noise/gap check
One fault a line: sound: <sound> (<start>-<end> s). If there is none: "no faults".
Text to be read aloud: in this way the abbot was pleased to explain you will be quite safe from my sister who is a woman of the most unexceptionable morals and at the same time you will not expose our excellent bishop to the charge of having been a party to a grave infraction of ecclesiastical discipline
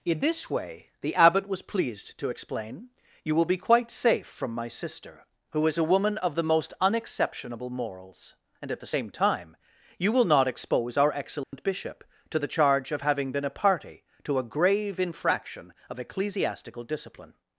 sound: dropout (11.4-11.5 s)